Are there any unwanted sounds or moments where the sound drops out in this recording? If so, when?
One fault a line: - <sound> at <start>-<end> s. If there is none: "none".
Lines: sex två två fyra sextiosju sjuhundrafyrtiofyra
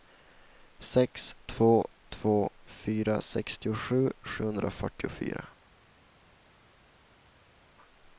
none